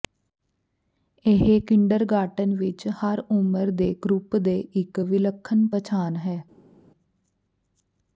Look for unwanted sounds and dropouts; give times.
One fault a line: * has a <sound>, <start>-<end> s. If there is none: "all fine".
all fine